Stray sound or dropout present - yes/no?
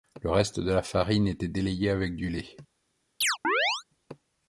yes